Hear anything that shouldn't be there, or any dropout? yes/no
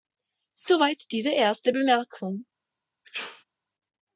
yes